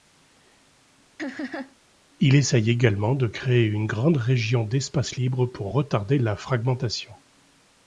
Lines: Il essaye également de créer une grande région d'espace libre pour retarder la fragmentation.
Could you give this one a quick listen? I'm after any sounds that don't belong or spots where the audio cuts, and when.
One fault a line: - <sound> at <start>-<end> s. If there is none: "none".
- laugh at 1.2-1.8 s